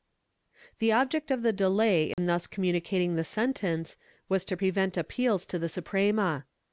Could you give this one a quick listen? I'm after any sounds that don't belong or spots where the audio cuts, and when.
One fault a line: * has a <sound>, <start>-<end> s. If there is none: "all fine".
* has a dropout, 2.1-2.2 s